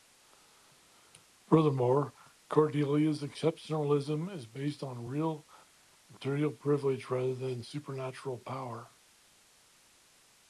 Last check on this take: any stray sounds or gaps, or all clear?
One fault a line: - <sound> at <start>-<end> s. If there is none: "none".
none